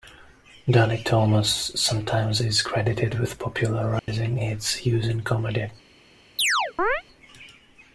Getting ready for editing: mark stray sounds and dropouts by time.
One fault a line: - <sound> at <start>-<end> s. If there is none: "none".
- dropout at 4.0-4.1 s
- chirp at 6.4-7.0 s